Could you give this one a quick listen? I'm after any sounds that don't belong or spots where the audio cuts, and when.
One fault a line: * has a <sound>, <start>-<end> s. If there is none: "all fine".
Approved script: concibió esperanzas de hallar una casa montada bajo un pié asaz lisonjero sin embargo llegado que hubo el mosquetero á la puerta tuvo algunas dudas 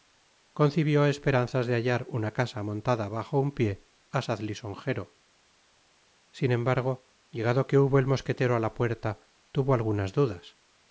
all fine